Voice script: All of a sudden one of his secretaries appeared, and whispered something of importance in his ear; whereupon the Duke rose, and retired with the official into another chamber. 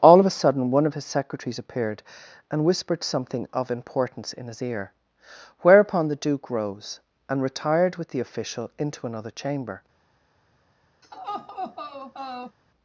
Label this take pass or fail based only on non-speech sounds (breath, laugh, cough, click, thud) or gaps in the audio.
fail